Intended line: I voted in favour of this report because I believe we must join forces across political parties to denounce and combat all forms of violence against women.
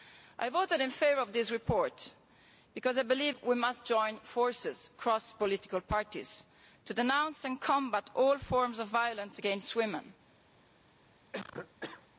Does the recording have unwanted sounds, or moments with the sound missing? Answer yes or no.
yes